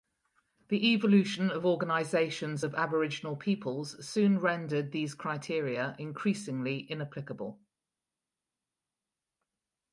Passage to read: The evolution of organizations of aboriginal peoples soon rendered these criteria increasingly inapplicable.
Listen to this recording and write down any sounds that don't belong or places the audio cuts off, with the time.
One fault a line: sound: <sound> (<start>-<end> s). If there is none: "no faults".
no faults